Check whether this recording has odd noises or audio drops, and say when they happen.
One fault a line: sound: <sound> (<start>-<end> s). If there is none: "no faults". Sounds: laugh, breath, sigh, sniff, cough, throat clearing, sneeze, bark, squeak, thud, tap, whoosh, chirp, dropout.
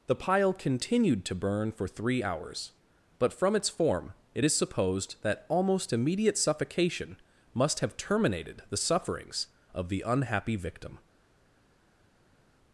no faults